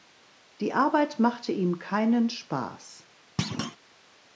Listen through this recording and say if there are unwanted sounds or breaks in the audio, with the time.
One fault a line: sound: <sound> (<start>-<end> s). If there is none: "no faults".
sound: thud (3.4-3.8 s)